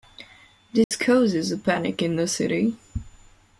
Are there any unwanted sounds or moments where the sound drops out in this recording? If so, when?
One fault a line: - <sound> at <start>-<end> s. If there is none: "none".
- dropout at 0.8-0.9 s